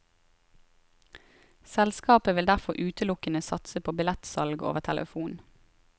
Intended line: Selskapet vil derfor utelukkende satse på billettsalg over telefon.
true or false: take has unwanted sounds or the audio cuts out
false